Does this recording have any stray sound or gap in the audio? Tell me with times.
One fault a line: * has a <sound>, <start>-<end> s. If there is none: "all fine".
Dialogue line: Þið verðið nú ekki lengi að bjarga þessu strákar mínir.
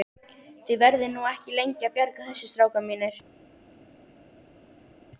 all fine